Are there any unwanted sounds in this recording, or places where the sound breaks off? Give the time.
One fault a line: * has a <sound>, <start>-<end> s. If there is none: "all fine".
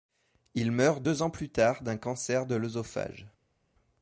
all fine